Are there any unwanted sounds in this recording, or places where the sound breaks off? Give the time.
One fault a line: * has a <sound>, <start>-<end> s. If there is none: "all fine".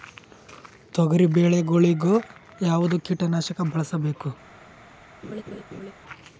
* has a laugh, 5.2-5.9 s